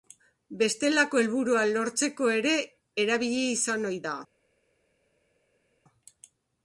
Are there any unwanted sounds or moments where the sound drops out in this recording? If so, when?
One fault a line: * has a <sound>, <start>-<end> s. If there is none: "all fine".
all fine